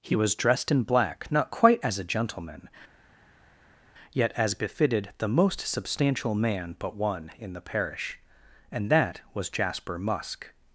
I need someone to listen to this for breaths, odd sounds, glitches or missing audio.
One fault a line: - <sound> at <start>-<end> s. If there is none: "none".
none